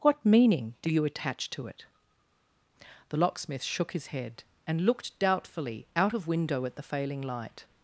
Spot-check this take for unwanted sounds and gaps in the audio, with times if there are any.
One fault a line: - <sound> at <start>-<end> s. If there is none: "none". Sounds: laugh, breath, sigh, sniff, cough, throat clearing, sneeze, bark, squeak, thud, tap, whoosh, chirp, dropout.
none